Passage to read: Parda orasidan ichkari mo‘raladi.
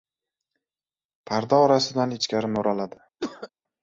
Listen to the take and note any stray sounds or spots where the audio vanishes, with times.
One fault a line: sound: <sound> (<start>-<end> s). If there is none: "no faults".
sound: cough (3.2-3.5 s)